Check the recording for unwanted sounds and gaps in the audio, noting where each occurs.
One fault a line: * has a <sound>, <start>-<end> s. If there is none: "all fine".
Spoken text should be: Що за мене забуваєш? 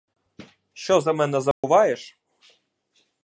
* has a dropout, 1.5-1.6 s